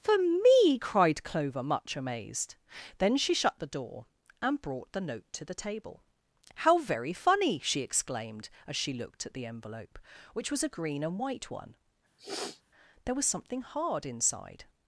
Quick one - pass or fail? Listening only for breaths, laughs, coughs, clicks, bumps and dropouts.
fail